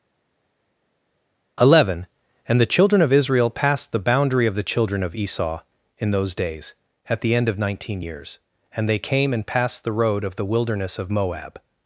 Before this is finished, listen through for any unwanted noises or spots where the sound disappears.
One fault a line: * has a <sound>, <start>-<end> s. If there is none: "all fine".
all fine